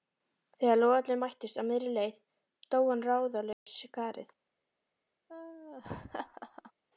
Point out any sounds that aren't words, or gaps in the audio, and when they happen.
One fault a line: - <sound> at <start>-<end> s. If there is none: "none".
- dropout at 3.5-3.7 s
- laugh at 5.3-6.7 s